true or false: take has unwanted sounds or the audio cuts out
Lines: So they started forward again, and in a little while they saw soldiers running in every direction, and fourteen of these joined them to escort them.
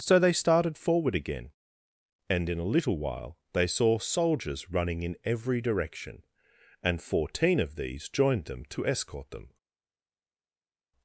false